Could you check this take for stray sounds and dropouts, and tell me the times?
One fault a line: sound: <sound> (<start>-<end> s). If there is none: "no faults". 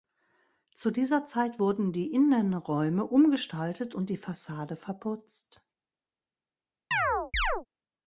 sound: chirp (6.9-7.7 s)